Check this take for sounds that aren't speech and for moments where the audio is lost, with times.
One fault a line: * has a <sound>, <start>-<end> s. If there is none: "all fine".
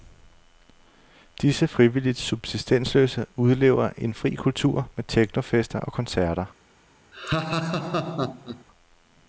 * has a laugh, 7.1-8.6 s